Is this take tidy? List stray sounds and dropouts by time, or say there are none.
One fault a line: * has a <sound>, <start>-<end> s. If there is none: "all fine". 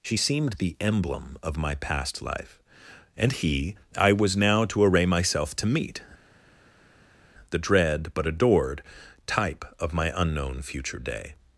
all fine